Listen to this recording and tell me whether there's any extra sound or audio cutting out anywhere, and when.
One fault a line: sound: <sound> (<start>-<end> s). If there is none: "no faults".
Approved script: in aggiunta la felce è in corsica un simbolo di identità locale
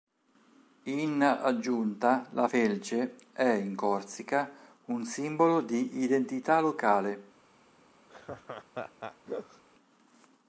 sound: laugh (8.1-9.6 s)